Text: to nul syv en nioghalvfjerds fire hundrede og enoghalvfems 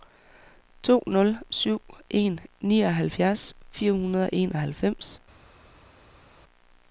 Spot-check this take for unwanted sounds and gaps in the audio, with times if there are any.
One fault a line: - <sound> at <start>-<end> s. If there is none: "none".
none